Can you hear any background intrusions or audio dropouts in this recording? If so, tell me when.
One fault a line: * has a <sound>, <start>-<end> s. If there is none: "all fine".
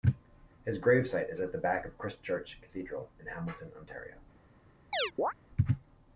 * has a chirp, 4.9-5.3 s